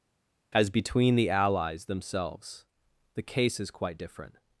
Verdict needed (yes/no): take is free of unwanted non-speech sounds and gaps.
yes